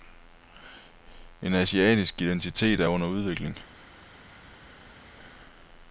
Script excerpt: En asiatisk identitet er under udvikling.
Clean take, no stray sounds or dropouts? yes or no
yes